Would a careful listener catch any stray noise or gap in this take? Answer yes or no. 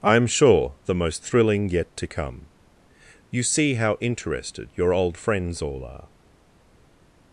no